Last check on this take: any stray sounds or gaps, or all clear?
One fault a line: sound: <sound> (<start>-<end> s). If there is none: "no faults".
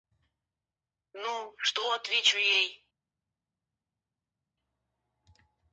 no faults